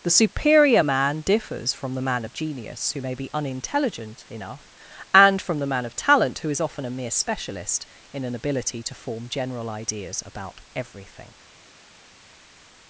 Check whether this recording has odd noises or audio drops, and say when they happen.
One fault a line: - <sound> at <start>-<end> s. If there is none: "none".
none